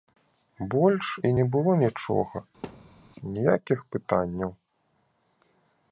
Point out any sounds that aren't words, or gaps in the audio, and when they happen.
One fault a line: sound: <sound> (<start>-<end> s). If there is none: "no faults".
sound: thud (2.6-3.0 s)